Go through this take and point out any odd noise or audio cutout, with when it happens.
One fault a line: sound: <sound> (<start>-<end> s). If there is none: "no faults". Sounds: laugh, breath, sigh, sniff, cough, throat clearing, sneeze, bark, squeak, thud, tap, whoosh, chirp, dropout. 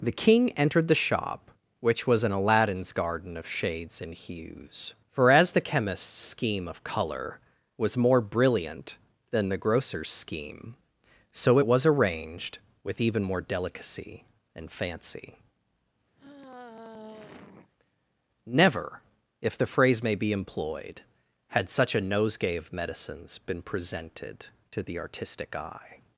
sound: sigh (16.2-17.7 s)